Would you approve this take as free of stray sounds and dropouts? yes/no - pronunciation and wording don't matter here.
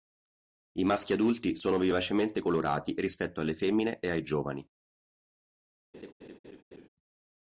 no